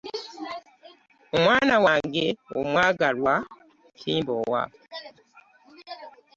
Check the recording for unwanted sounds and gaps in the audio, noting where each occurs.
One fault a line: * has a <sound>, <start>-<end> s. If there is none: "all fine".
all fine